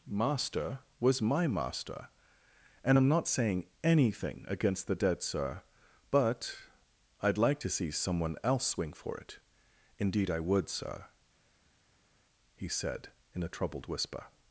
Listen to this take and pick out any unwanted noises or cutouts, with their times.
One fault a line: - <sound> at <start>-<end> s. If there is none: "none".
none